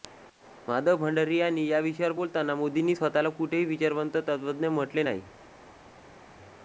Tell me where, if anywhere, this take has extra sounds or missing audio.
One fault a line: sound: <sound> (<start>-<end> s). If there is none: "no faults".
no faults